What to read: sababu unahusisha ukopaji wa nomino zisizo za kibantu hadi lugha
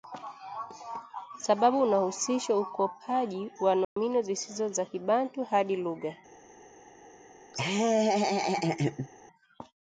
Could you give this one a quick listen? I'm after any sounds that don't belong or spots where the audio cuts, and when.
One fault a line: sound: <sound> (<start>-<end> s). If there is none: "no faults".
sound: dropout (3.8-4.0 s)
sound: laugh (7.5-9.1 s)